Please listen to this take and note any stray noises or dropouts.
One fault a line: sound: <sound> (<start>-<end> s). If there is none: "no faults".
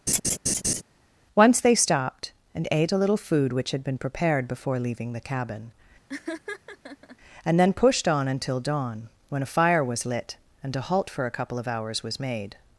sound: laugh (0.1-0.8 s)
sound: laugh (6.1-7.2 s)